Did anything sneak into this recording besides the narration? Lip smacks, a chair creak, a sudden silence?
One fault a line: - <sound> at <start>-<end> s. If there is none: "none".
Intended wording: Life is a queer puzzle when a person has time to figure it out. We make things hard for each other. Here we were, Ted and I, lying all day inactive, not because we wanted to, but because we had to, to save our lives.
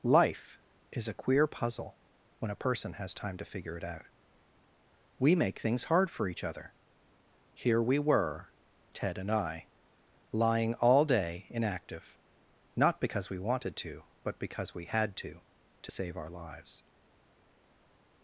none